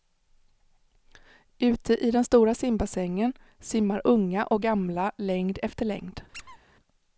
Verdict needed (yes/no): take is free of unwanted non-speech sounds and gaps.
no